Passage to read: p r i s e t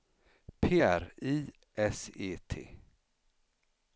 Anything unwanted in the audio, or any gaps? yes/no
no